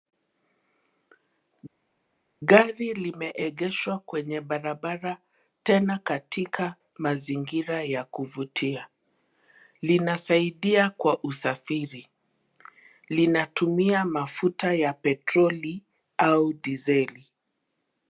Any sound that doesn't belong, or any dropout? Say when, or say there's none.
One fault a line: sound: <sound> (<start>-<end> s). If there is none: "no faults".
no faults